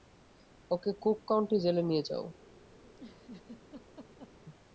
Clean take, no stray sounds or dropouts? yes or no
no